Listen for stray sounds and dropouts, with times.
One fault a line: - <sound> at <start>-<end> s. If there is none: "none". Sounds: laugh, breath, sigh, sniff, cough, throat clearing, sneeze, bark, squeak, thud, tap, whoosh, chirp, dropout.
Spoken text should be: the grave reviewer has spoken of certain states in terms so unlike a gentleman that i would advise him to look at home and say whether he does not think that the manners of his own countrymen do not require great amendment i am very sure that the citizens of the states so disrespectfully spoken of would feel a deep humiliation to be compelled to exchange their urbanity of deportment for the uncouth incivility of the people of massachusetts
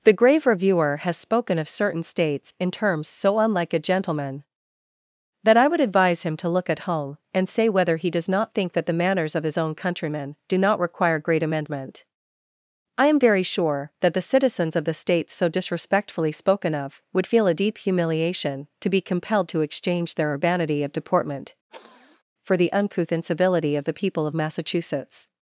- sniff at 21.7-22.2 s